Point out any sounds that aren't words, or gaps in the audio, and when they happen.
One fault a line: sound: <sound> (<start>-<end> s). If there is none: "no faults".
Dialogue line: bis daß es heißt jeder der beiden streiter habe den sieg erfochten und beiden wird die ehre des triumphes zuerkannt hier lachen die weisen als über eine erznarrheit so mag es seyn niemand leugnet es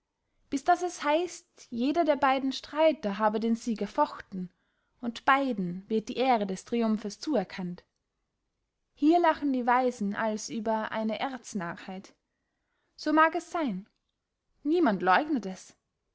no faults